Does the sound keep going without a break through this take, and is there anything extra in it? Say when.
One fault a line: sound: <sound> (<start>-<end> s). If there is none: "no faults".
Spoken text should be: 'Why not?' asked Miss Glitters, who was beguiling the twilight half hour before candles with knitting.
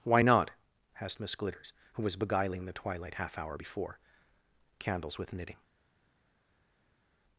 no faults